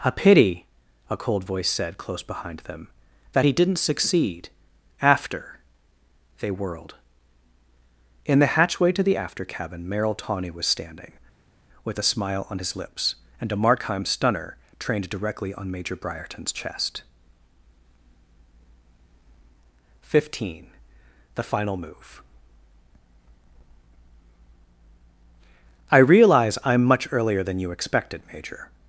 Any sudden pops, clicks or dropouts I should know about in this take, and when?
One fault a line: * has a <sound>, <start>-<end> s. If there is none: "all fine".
all fine